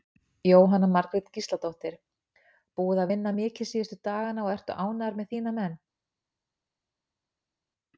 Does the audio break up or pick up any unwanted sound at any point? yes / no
no